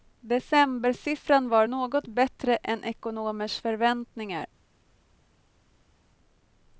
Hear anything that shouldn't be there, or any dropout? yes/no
no